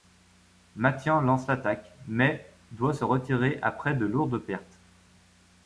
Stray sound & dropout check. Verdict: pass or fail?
pass